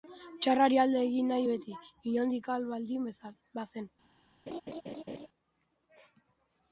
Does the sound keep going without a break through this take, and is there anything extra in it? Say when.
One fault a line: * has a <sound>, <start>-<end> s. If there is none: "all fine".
* has a laugh, 4.5-5.3 s